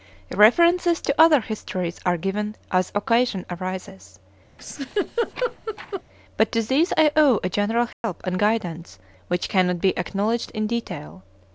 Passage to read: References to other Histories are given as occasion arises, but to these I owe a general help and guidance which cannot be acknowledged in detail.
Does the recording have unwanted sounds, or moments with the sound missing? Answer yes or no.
yes